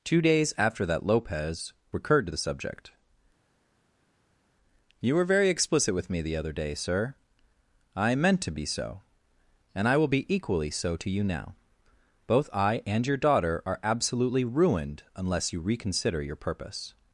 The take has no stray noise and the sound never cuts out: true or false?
true